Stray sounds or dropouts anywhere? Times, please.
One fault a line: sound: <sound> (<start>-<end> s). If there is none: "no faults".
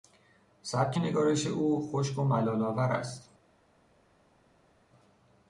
no faults